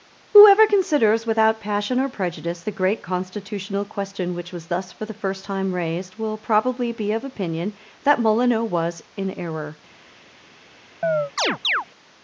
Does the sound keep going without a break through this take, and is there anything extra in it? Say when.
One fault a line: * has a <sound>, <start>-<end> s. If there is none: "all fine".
* has a chirp, 11.0-11.9 s